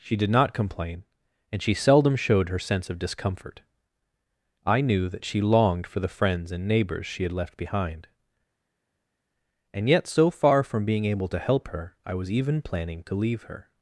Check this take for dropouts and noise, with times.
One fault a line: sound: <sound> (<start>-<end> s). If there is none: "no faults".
no faults